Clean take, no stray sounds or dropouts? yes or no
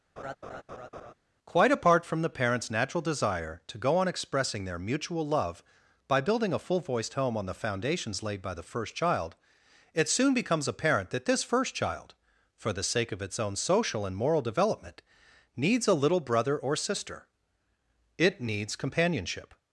no